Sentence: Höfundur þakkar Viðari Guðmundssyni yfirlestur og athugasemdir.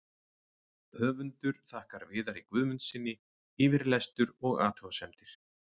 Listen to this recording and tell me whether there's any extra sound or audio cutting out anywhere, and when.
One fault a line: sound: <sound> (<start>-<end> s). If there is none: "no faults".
no faults